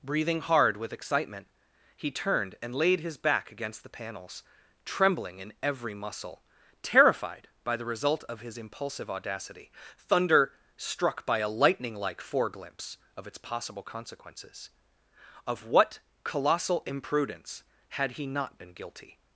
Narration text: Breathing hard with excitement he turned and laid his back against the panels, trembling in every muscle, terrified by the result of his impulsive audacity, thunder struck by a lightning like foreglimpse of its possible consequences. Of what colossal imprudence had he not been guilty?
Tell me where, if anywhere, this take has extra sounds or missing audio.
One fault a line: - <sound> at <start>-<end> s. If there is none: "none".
none